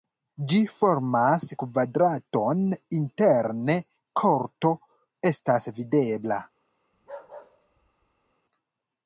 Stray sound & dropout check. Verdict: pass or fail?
fail